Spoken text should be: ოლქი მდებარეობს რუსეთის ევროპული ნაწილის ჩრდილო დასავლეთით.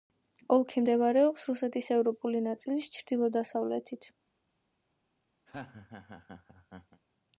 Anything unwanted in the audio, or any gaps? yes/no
yes